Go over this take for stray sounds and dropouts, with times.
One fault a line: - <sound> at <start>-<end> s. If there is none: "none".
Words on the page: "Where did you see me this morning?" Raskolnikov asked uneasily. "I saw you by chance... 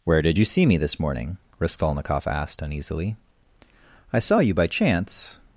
none